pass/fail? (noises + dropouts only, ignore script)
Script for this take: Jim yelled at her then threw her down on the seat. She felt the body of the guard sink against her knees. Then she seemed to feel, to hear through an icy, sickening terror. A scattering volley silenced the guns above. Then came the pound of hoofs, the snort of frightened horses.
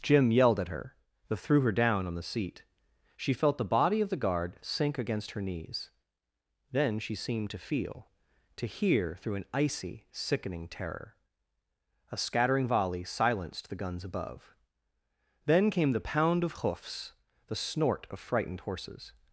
pass